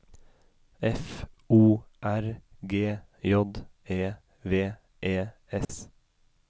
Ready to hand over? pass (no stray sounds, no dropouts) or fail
fail